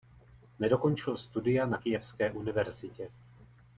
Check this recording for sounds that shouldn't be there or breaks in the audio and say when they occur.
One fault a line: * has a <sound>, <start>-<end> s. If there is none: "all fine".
all fine